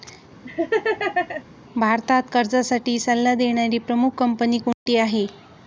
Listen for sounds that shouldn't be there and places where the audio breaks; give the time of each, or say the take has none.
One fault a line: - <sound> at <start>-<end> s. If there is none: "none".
- laugh at 0.4-1.4 s
- dropout at 4.7-4.9 s